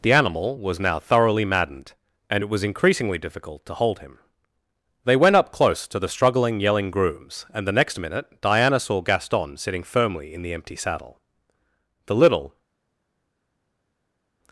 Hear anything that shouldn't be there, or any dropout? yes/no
no